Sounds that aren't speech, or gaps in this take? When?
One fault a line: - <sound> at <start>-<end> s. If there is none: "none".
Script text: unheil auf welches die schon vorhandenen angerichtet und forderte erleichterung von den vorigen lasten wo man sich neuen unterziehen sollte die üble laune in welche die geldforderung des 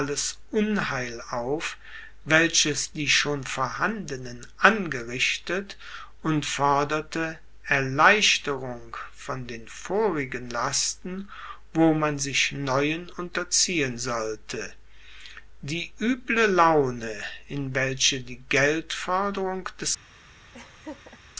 - laugh at 20.5-21.2 s